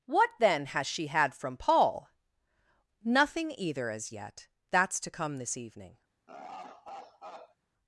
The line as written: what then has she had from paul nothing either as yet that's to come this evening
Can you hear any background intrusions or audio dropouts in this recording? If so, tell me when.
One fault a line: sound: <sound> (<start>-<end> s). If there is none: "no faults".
sound: laugh (6.3-7.6 s)